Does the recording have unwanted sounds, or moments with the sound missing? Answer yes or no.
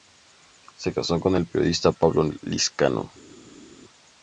no